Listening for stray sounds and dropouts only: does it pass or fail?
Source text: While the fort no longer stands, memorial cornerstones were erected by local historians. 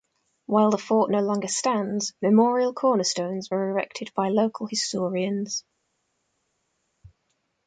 pass